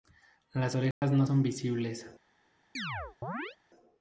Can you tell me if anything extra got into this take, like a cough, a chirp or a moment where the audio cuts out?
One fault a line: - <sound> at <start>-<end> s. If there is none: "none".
- dropout at 0.9-1.0 s
- chirp at 2.7-3.6 s